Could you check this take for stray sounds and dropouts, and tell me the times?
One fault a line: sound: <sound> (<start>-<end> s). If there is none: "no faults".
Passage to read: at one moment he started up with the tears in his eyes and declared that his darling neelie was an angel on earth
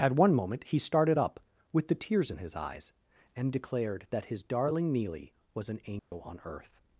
sound: dropout (6.0-6.1 s)